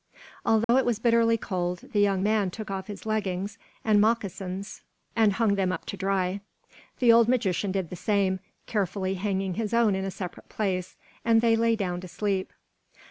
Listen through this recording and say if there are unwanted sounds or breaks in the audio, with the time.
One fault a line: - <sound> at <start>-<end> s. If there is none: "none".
- dropout at 0.6-0.7 s